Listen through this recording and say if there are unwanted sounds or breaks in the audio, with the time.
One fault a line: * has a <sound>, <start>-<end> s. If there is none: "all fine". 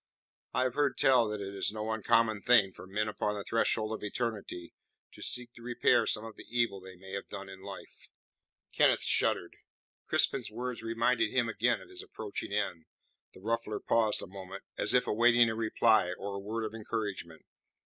all fine